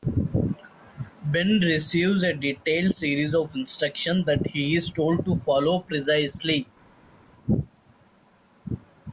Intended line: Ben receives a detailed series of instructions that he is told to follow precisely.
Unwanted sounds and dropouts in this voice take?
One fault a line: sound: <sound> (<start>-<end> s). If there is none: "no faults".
no faults